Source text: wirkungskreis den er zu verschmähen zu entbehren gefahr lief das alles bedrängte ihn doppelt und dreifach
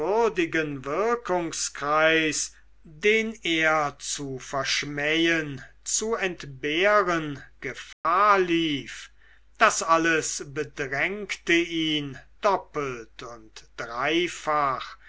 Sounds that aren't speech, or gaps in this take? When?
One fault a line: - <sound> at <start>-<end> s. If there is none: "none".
- dropout at 7.9-8.0 s